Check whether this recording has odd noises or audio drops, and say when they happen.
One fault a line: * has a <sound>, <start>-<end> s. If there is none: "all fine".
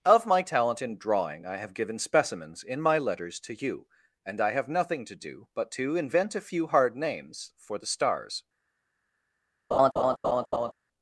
* has a laugh, 9.7-10.7 s